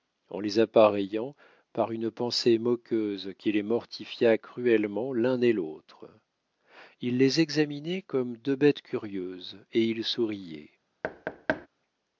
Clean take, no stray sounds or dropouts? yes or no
no